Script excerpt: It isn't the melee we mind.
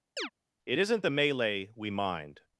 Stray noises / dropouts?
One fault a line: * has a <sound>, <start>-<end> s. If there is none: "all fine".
* has a chirp, 0.2-0.3 s